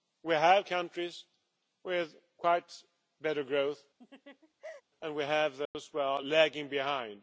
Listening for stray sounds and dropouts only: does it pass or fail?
fail